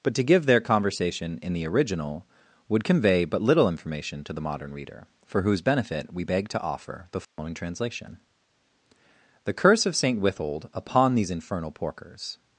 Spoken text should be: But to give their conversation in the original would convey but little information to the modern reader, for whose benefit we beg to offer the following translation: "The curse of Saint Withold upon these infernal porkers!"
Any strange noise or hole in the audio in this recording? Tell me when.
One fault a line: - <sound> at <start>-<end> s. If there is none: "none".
- dropout at 7.2-7.4 s